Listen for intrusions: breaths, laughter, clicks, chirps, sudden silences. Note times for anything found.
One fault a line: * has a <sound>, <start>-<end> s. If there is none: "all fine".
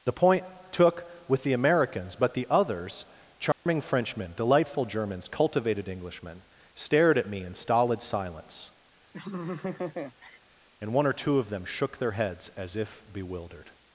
* has a dropout, 3.5-3.7 s
* has a laugh, 9.1-10.4 s